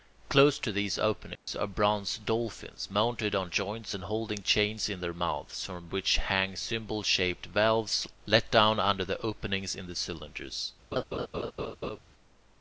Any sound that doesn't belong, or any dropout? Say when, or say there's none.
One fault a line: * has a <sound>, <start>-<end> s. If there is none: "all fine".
* has a dropout, 1.4-1.5 s
* has a laugh, 10.9-12.0 s